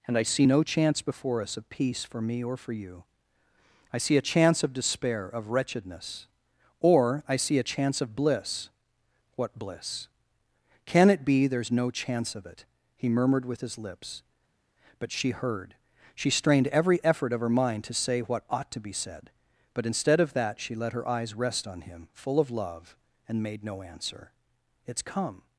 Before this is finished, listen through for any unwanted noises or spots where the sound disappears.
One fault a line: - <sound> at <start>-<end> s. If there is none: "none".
none